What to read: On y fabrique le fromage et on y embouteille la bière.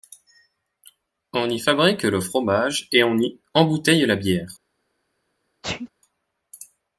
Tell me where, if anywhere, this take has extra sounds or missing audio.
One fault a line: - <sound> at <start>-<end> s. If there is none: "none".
- sneeze at 5.6-5.9 s